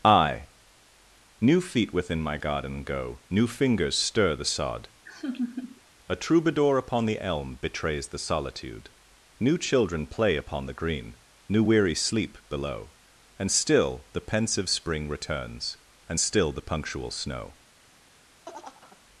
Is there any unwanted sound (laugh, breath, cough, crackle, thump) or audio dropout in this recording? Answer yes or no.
yes